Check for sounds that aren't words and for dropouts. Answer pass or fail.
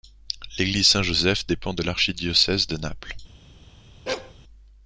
fail